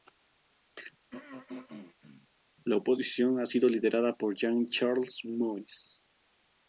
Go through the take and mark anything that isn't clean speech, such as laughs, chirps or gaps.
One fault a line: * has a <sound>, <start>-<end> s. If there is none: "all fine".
* has a throat clearing, 1.1-2.3 s